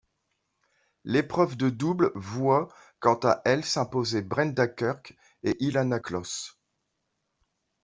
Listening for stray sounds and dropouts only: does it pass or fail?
pass